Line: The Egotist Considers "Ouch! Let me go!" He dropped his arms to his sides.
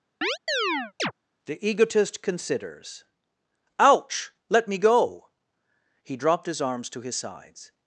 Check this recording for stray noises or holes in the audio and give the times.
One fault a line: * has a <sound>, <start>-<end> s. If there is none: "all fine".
* has a chirp, 0.2-1.1 s